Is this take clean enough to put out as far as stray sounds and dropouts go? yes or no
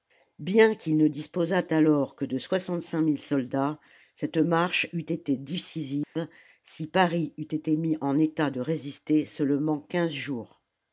no